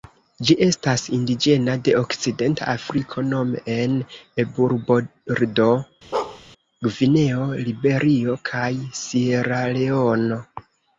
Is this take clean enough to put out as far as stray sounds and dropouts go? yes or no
no